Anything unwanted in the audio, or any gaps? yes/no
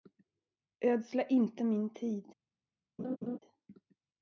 yes